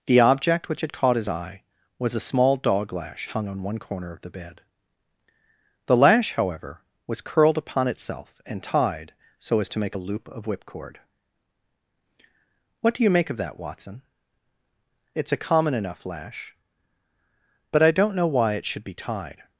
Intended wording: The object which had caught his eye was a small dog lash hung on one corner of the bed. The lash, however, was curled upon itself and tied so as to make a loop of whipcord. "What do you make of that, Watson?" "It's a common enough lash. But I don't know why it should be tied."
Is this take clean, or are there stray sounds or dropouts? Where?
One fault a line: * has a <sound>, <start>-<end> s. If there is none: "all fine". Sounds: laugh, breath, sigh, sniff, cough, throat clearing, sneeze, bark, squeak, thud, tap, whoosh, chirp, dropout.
all fine